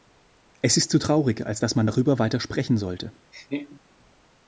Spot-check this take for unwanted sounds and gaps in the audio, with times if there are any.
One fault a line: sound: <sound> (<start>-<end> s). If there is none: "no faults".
sound: laugh (3.3-3.8 s)